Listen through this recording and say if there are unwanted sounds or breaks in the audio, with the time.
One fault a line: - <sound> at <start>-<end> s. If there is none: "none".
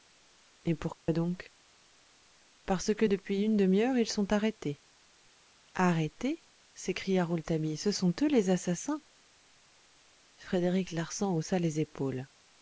- dropout at 1.0-1.1 s